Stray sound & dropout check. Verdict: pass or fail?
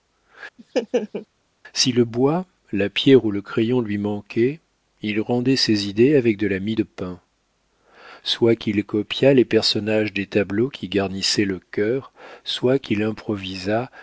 fail